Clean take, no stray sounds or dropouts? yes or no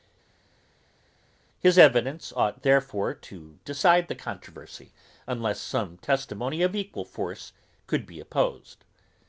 yes